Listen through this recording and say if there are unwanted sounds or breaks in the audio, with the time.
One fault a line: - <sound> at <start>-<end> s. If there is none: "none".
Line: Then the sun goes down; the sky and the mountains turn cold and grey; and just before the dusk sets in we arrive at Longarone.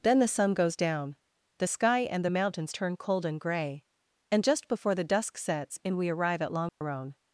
- dropout at 6.7-6.8 s